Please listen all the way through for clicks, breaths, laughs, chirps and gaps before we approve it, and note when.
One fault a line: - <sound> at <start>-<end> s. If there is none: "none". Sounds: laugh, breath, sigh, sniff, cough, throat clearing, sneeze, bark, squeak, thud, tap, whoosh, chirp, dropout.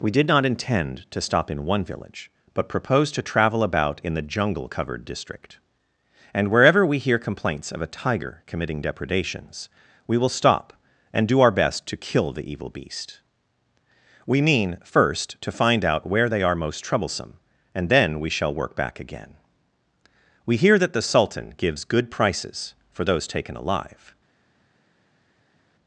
none